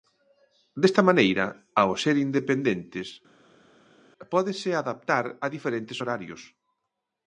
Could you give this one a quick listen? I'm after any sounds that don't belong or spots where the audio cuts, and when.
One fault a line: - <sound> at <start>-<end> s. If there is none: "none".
none